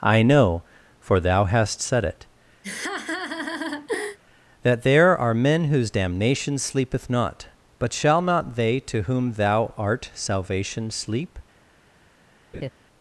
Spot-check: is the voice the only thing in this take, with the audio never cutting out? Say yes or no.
no